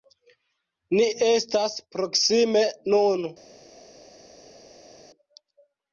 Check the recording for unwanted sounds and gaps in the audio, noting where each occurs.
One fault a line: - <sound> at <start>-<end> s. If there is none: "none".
none